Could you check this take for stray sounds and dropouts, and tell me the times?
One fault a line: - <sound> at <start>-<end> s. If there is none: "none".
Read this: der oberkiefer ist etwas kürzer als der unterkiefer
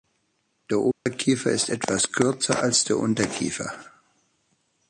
- dropout at 0.9-1.1 s